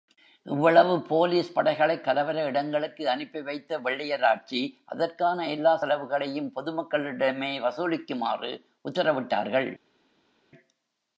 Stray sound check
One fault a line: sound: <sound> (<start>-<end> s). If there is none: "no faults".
no faults